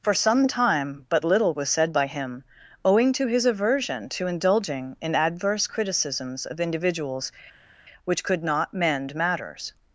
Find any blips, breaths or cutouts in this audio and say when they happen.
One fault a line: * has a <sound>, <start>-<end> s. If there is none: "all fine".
all fine